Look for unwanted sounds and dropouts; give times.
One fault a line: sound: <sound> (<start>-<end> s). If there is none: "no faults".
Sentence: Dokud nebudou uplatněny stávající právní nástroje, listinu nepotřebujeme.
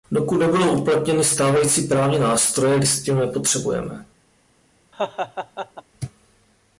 sound: laugh (4.9-5.8 s)